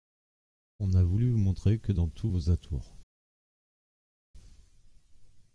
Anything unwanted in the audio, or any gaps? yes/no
no